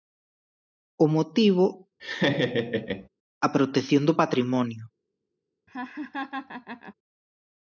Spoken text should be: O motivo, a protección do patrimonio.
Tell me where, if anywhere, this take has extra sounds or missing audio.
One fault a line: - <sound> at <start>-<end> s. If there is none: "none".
- laugh at 2.0-3.1 s
- laugh at 5.7-6.9 s